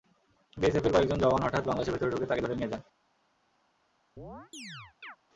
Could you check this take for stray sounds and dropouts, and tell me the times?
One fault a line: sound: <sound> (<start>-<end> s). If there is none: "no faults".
sound: chirp (4.2-5.2 s)